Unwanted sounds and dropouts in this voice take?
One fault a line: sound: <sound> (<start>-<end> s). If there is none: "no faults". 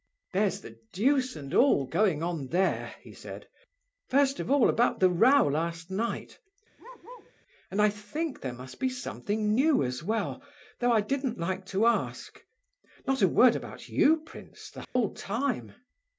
sound: bark (6.8-7.3 s)
sound: dropout (14.8-15.0 s)